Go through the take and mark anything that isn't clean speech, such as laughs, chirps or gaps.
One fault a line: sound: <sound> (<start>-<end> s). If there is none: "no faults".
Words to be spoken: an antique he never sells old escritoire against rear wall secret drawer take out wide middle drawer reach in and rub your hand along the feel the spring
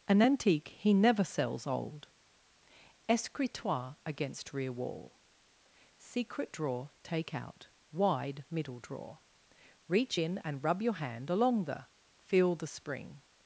no faults